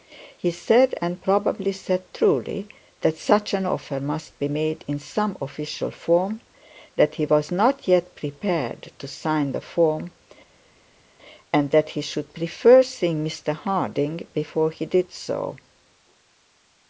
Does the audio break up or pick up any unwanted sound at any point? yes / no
no